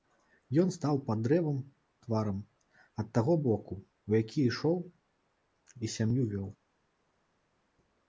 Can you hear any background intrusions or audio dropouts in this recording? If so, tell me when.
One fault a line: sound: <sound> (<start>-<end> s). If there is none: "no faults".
no faults